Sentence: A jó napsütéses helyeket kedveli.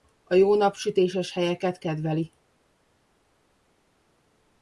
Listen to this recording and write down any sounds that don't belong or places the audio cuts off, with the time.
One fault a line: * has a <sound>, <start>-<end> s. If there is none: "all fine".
all fine